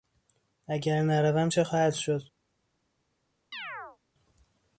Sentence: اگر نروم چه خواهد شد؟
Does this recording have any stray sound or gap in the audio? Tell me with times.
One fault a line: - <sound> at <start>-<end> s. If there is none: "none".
- chirp at 3.5-4.0 s